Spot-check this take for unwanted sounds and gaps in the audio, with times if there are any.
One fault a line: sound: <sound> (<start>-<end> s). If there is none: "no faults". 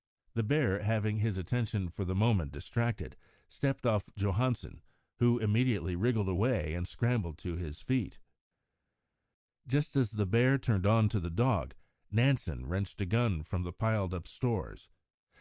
no faults